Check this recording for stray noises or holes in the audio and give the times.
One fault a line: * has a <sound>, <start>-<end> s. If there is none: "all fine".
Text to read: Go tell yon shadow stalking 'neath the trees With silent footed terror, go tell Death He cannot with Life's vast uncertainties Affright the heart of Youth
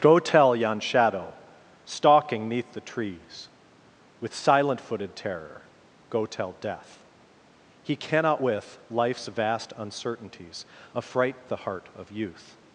all fine